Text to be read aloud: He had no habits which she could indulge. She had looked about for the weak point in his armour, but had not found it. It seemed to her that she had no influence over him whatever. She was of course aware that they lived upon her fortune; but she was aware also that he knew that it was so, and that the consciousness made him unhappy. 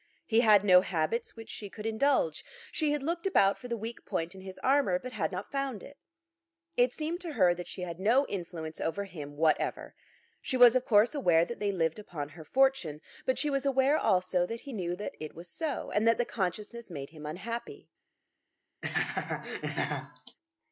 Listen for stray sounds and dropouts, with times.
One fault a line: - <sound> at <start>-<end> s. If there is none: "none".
- laugh at 18.8-20.4 s